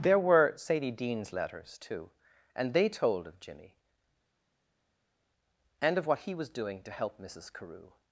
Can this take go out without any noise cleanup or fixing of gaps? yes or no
yes